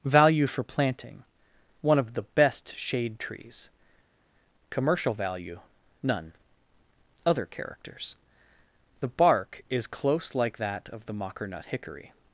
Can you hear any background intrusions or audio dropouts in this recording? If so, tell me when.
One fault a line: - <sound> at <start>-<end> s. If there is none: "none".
none